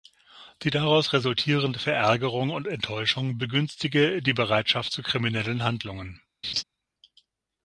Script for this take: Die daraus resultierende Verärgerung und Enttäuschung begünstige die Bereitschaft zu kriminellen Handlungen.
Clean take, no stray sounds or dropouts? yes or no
no